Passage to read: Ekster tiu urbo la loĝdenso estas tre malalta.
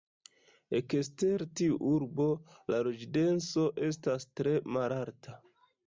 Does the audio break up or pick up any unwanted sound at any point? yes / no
no